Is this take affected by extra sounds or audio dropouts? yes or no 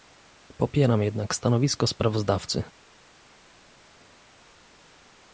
no